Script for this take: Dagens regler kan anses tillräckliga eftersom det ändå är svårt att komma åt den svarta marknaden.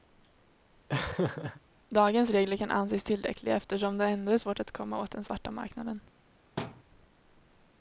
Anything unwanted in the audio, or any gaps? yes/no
yes